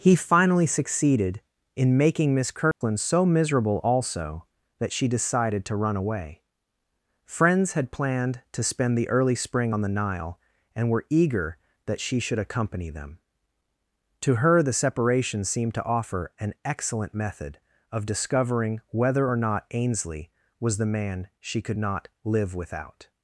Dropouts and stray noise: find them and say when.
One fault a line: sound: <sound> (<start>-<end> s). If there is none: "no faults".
sound: dropout (2.7-2.8 s)